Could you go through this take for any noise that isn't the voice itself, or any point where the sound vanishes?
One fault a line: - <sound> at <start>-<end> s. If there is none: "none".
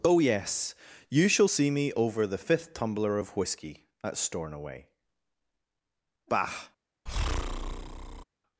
- breath at 7.1-8.2 s